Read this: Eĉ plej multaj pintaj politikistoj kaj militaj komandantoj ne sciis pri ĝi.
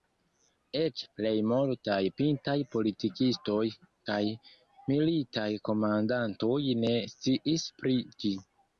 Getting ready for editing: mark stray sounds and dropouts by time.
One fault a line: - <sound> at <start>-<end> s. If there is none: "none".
none